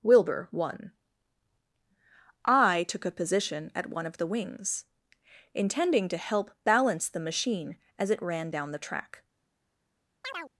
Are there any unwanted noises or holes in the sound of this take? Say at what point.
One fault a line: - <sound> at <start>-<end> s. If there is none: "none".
- chirp at 10.2-10.5 s